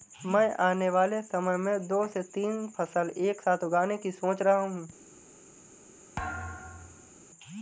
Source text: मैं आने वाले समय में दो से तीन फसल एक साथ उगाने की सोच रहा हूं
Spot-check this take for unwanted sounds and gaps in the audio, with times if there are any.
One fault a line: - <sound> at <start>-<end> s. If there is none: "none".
- thud at 6.2-7.1 s